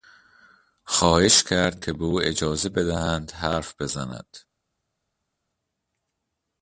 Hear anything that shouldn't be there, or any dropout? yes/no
no